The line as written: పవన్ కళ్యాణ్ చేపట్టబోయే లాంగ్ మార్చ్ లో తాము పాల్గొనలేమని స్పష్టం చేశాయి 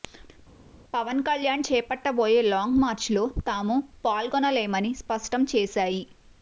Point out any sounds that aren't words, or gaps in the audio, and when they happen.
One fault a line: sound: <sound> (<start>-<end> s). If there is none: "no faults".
no faults